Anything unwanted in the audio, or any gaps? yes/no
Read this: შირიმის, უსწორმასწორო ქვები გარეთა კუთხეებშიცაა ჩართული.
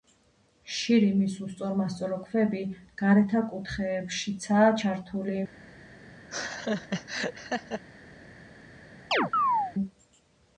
yes